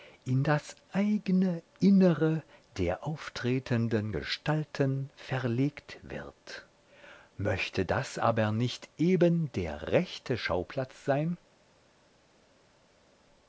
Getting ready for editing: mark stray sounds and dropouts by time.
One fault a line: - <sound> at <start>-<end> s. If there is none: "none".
none